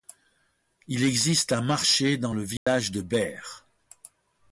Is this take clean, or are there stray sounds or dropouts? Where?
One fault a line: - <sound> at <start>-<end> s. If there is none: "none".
- dropout at 2.6-2.7 s